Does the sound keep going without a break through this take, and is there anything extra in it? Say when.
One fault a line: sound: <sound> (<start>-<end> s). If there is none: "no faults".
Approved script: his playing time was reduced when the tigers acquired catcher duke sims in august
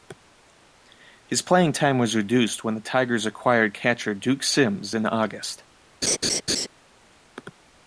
sound: laugh (6.0-6.7 s)